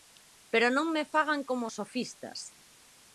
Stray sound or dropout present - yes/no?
no